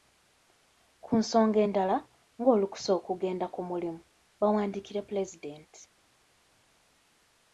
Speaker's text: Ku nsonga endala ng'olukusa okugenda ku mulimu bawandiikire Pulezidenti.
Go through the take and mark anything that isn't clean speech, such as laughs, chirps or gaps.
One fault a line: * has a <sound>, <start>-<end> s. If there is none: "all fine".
all fine